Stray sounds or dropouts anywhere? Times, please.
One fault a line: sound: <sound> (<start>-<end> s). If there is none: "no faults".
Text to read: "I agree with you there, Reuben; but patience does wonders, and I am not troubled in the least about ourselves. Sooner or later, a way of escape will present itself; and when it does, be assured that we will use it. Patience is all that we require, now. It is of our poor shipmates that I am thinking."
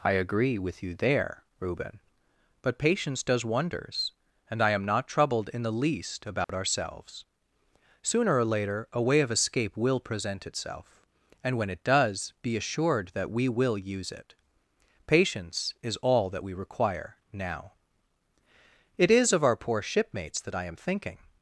sound: dropout (6.4-6.5 s)